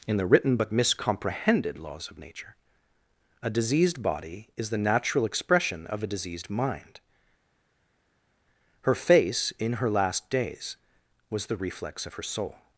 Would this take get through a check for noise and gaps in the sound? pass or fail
pass